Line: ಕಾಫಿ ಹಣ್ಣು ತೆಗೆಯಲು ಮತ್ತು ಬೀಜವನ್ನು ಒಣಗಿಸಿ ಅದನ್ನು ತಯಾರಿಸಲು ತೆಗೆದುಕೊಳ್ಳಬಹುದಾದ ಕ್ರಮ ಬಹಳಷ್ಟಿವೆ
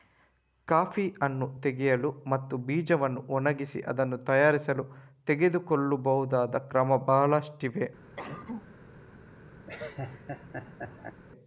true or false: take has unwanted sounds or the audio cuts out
true